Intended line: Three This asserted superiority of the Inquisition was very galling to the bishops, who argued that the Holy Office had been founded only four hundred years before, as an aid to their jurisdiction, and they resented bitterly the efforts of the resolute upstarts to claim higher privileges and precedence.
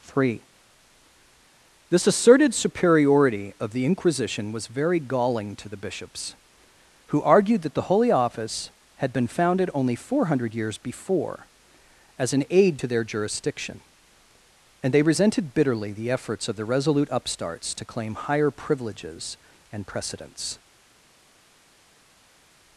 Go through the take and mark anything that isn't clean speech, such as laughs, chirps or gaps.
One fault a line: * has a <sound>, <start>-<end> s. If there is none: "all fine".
all fine